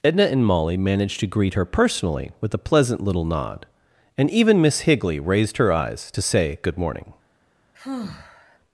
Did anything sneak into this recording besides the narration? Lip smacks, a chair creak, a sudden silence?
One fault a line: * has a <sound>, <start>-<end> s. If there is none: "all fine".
* has a sigh, 7.7-8.6 s